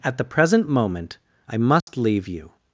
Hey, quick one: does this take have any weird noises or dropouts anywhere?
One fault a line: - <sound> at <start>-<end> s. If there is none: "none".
- dropout at 1.8-1.9 s